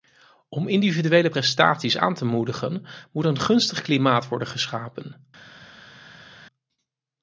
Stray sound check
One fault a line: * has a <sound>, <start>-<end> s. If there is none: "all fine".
all fine